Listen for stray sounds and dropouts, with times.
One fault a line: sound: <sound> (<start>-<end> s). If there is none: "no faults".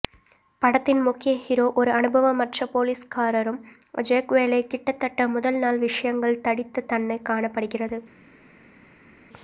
no faults